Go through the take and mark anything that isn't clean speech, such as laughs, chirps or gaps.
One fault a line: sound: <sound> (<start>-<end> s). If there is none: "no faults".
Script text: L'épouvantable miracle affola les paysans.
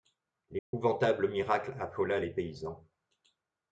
sound: dropout (0.6-0.7 s)